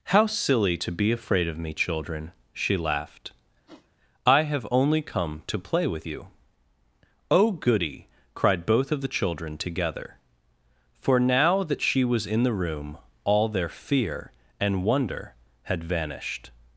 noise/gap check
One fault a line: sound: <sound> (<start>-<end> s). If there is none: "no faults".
sound: sniff (3.7-3.9 s)